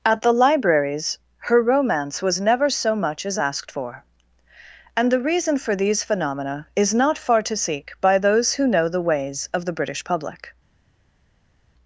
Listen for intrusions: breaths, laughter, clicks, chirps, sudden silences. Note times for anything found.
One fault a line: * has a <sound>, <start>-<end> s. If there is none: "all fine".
all fine